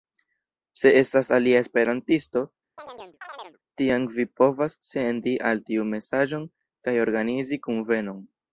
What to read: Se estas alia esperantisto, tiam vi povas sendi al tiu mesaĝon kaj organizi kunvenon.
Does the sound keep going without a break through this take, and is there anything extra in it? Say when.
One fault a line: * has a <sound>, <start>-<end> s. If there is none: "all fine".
* has a chirp, 2.8-3.6 s